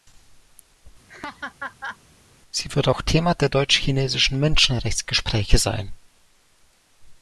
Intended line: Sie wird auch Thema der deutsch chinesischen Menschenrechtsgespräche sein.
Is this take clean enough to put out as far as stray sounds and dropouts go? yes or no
no